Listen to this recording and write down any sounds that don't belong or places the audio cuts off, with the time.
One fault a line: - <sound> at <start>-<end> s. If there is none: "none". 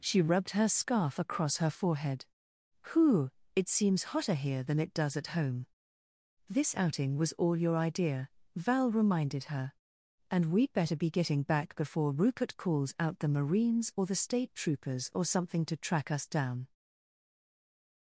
none